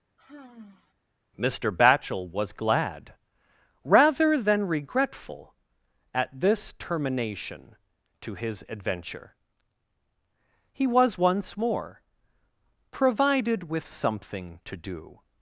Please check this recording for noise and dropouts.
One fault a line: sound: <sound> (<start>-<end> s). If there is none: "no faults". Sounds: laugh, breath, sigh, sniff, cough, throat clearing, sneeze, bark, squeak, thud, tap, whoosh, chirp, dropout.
sound: sigh (0.2-0.9 s)